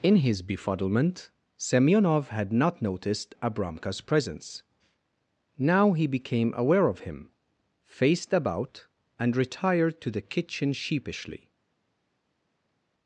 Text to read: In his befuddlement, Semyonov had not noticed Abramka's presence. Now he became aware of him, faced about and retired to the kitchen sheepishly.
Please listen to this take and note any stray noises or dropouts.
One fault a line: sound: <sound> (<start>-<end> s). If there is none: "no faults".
no faults